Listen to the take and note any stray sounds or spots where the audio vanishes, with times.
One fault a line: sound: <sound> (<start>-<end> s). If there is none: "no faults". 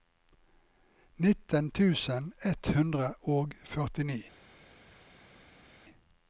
no faults